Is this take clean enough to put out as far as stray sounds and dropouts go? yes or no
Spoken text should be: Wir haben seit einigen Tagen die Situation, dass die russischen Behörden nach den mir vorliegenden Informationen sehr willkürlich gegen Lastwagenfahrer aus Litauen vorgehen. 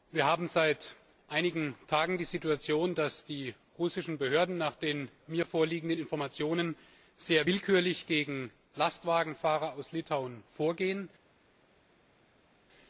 yes